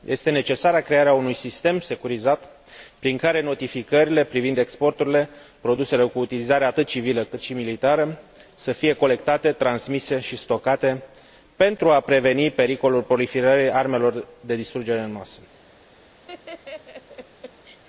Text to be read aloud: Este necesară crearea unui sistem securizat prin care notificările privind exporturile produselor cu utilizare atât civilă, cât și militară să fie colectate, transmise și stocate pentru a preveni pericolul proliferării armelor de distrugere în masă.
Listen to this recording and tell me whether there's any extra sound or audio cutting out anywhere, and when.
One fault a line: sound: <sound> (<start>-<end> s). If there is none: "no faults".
sound: laugh (16.3-17.8 s)